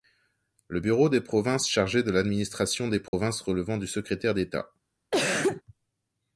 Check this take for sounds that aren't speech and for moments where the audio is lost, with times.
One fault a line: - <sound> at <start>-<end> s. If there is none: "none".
- dropout at 3.1-3.1 s
- cough at 5.1-5.6 s